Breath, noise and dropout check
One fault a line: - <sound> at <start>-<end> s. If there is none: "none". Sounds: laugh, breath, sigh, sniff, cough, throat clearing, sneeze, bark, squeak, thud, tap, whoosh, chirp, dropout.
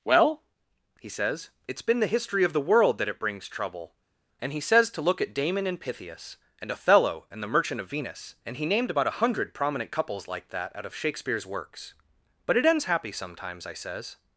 none